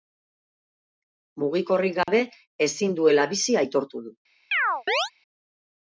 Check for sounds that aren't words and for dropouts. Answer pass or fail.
fail